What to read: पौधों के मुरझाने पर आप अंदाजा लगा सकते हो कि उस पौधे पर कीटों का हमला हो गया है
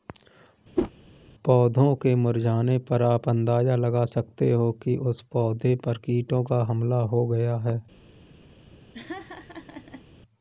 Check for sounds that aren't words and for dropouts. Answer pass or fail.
fail